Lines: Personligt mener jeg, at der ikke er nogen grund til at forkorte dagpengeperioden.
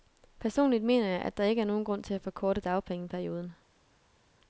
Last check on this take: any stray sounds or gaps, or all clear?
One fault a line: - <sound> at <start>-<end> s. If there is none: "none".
none